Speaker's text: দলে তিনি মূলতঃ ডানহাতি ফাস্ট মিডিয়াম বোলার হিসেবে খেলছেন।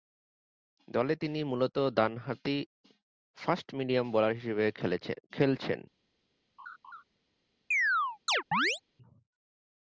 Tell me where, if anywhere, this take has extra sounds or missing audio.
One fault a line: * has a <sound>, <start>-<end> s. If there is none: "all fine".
* has a laugh, 6.6-7.0 s
* has a chirp, 7.7-8.8 s